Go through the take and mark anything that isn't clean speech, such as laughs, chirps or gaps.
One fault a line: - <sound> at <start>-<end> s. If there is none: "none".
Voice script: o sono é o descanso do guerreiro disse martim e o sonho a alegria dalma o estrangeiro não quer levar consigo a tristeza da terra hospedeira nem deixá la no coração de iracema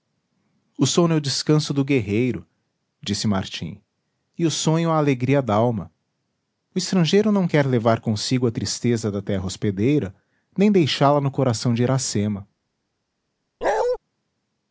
- bark at 13.6-14.0 s